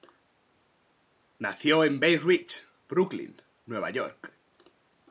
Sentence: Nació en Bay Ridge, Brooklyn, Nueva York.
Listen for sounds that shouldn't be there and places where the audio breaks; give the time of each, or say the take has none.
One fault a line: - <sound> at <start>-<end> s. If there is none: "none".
none